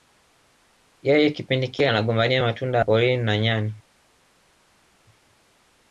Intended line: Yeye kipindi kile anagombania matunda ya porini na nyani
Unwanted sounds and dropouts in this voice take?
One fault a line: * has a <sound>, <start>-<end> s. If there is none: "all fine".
all fine